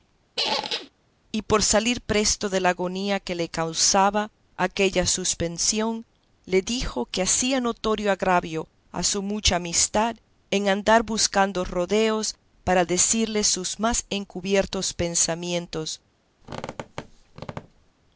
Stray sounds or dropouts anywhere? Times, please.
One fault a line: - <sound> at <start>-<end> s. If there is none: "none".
- squeak at 0.4-0.9 s
- squeak at 16.4-17.9 s